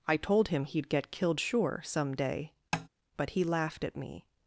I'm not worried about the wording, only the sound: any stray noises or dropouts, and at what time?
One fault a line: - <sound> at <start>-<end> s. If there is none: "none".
- tap at 2.7-2.9 s